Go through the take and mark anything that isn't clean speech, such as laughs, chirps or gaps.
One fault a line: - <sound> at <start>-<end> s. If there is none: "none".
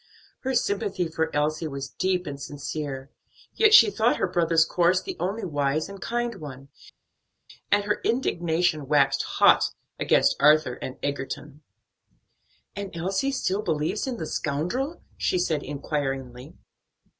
none